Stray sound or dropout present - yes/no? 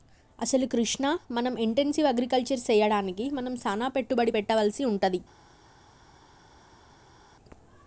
no